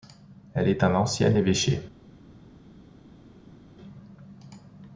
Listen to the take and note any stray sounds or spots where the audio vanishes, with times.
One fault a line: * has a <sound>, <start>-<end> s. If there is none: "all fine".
all fine